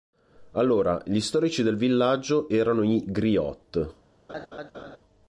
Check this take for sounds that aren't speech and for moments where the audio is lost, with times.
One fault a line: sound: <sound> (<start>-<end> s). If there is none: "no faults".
sound: laugh (4.3-5.0 s)